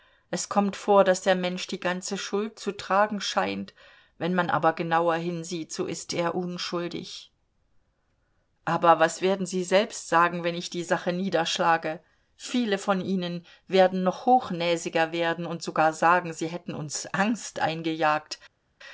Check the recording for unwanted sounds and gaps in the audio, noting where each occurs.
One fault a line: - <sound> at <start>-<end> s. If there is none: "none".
none